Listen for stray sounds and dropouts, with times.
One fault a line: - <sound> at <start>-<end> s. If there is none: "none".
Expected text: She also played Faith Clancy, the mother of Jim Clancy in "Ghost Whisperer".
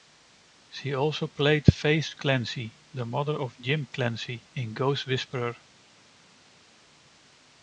none